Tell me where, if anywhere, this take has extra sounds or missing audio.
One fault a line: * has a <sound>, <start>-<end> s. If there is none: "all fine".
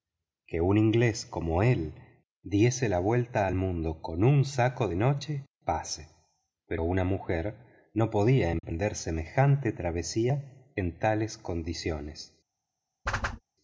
* has a dropout, 8.6-8.6 s
* has a whoosh, 13.1-13.4 s